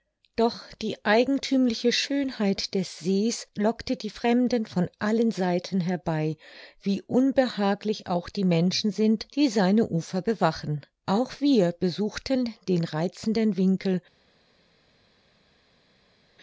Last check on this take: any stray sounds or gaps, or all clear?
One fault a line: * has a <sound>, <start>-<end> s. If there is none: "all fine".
all fine